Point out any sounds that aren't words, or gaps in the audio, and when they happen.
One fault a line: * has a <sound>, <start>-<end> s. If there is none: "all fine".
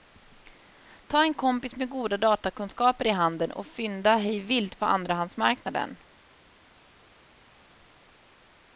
all fine